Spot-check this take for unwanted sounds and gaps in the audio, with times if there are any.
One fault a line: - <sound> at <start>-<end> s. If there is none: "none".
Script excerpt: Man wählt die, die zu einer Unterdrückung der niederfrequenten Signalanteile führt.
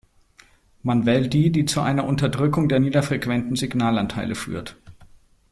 none